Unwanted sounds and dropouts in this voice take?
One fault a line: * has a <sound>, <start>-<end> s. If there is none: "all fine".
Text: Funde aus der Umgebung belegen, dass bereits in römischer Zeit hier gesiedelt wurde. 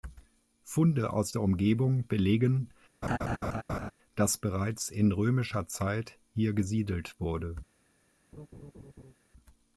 * has a laugh, 3.0-3.9 s
* has a laugh, 8.3-9.1 s